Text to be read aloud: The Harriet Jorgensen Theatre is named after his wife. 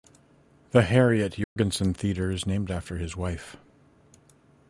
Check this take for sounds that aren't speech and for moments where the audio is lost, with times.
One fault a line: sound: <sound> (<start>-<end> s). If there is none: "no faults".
sound: dropout (1.4-1.6 s)